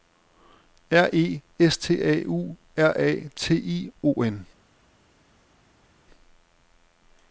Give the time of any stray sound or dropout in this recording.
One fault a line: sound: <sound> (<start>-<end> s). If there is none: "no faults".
no faults